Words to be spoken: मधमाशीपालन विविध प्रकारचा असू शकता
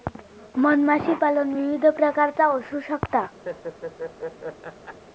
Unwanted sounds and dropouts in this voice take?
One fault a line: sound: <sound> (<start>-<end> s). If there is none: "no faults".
sound: laugh (3.4-5.0 s)